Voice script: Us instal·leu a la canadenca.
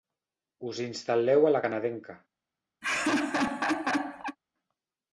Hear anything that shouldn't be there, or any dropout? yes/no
yes